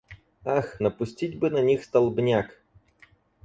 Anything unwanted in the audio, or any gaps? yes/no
no